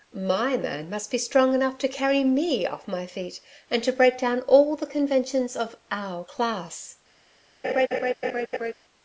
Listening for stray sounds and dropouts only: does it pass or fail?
fail